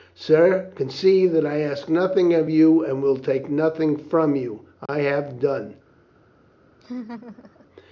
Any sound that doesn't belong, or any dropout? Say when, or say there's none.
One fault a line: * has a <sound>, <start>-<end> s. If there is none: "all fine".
* has a dropout, 4.9-4.9 s
* has a laugh, 6.8-7.7 s